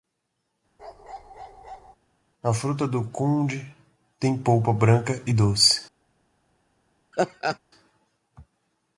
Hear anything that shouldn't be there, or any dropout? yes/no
yes